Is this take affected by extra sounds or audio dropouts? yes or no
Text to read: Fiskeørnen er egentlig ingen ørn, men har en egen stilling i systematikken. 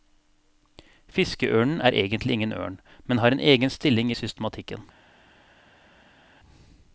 no